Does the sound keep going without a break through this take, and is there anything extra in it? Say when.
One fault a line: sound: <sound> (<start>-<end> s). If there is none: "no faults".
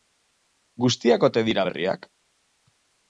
no faults